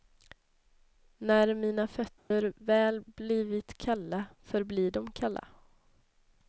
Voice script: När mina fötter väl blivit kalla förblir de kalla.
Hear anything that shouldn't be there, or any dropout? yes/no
yes